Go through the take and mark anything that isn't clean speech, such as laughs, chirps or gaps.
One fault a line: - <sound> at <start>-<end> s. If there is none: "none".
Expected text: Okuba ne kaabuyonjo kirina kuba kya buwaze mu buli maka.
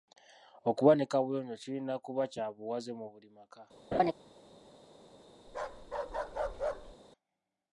- laugh at 3.9-4.1 s
- bark at 5.5-7.0 s